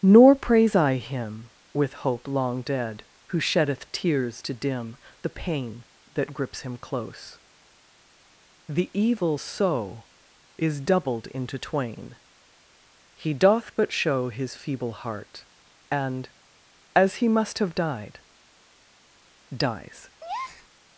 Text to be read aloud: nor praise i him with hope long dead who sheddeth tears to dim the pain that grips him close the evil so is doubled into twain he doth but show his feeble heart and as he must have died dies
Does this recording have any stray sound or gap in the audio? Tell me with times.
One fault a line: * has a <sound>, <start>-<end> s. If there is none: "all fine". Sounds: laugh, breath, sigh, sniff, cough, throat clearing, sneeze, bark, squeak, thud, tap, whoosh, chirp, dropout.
* has a breath, 20.2-20.7 s